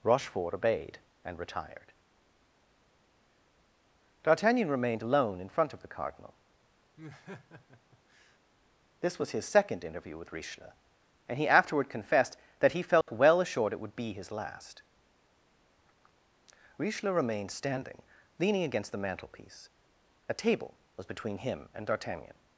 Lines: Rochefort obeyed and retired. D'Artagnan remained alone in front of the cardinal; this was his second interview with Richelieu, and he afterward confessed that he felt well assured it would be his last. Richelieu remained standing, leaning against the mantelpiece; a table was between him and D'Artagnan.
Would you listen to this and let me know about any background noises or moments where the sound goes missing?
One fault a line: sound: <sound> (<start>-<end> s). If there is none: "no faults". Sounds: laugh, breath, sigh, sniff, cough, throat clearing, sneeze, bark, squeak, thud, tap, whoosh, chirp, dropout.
sound: laugh (7.0-8.4 s)
sound: dropout (13.0-13.1 s)